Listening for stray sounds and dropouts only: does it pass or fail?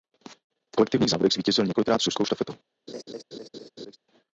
fail